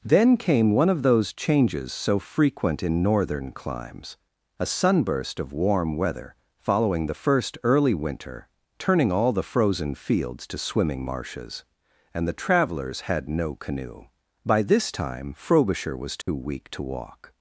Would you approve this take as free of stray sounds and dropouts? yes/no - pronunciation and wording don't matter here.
no